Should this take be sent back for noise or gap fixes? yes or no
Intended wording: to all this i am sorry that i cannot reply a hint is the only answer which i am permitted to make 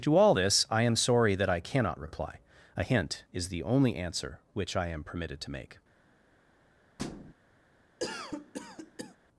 yes